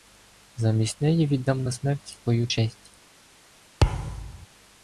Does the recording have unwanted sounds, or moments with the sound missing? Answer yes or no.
yes